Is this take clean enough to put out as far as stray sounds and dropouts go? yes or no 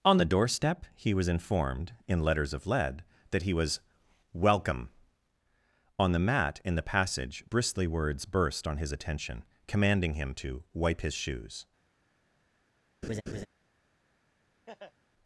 no